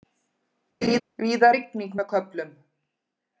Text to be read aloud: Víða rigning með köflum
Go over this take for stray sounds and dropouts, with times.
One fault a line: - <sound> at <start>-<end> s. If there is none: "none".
- laugh at 0.8-1.0 s